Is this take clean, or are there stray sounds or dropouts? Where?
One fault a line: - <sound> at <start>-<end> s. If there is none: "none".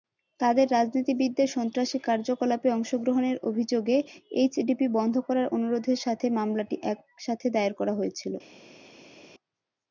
none